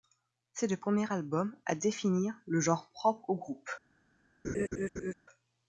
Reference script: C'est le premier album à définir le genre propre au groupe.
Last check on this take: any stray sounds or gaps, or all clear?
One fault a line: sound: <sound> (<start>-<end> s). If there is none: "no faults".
sound: laugh (4.4-5.1 s)